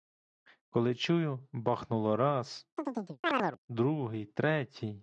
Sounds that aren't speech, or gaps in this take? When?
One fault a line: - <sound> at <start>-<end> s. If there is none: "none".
- chirp at 2.8-3.6 s